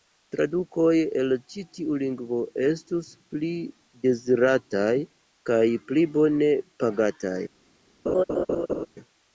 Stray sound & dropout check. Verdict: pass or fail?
fail